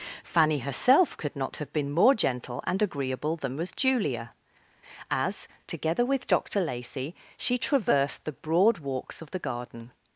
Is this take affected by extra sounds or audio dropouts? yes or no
no